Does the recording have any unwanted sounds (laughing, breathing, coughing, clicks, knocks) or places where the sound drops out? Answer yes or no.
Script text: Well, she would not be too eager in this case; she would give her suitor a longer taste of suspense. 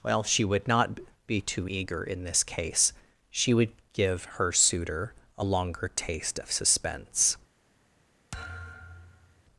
yes